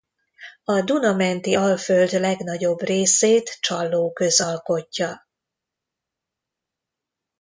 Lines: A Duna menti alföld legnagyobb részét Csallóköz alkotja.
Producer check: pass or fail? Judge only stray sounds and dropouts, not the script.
pass